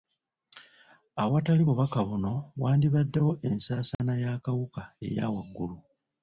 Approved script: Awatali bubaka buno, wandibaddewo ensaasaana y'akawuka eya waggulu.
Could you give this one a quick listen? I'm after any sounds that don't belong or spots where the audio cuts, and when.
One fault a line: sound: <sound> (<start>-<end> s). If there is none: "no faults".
sound: dropout (3.9-4.0 s)